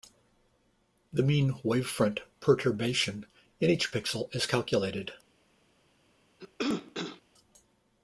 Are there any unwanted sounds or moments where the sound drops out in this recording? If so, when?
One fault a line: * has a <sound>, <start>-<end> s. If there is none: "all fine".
* has a cough, 6.4-7.2 s